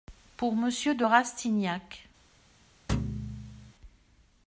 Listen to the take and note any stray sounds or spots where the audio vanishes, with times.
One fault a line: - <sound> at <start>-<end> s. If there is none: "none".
- thud at 2.9-3.7 s